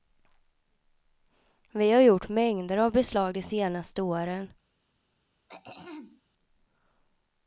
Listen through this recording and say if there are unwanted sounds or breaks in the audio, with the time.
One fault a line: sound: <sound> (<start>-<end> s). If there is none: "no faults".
sound: throat clearing (5.5-6.2 s)